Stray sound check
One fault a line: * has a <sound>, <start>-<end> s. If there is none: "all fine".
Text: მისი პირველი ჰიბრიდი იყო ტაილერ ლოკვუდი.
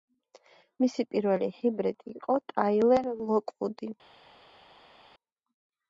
all fine